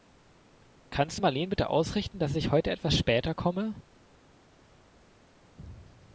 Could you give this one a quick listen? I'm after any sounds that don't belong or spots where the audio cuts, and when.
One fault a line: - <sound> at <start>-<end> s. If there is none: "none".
none